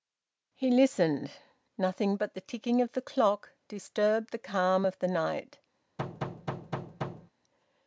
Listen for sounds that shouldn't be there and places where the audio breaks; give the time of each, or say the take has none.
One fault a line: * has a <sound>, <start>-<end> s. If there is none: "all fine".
* has a thud, 6.0-7.3 s